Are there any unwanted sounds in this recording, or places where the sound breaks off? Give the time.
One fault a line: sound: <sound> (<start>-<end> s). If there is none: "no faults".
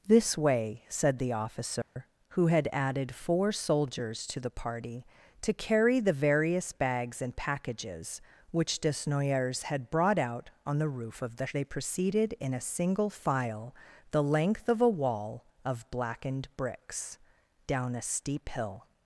sound: dropout (1.8-2.0 s)